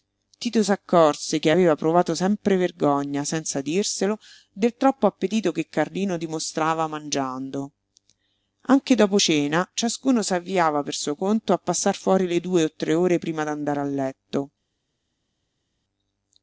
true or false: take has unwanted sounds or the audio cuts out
false